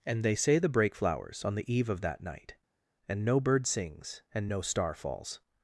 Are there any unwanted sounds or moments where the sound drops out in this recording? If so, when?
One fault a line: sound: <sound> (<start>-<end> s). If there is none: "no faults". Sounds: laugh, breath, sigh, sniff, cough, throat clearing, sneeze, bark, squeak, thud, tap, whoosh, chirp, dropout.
no faults